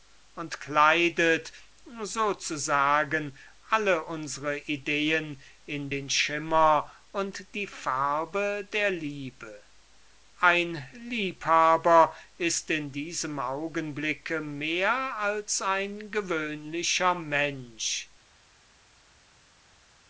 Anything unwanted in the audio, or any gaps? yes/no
no